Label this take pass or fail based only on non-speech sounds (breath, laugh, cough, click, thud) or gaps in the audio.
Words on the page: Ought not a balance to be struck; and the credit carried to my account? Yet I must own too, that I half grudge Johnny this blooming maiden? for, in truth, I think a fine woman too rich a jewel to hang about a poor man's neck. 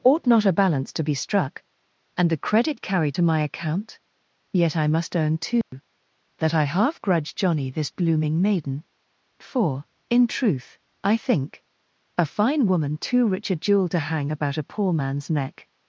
fail